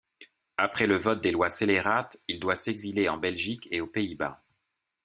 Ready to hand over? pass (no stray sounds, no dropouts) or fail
pass